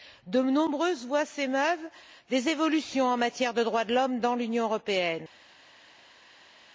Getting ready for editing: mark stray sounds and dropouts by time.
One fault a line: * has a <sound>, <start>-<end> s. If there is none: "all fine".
all fine